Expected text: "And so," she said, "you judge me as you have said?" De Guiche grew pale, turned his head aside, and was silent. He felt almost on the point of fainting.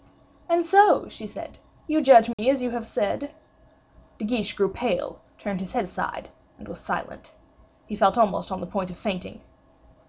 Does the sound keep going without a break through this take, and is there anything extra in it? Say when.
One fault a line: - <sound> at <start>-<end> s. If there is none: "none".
- dropout at 2.3-2.4 s